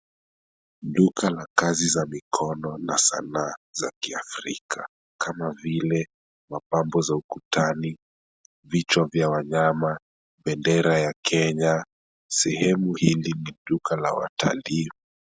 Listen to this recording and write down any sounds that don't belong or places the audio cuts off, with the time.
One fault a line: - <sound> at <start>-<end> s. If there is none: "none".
none